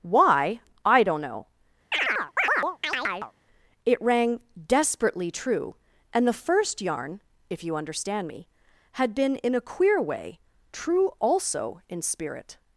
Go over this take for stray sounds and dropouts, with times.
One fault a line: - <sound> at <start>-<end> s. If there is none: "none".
- chirp at 1.9-3.3 s